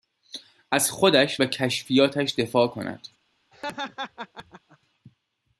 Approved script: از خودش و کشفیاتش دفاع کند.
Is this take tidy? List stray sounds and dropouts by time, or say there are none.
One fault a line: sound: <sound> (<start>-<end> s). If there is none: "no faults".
sound: laugh (3.5-4.8 s)